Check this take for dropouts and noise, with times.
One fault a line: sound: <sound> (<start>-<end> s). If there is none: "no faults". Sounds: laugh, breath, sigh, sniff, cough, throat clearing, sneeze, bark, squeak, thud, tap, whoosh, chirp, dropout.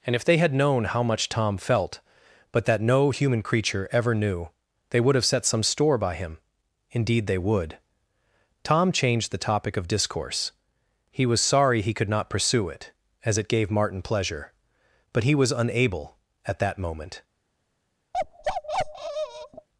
sound: bark (18.1-19.7 s)